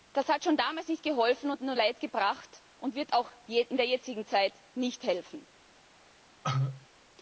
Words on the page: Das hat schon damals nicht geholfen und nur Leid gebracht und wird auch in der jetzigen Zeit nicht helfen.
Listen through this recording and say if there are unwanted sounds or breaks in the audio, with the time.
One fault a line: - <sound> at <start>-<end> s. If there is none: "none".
- cough at 6.4-6.9 s